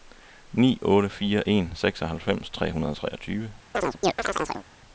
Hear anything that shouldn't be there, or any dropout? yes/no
yes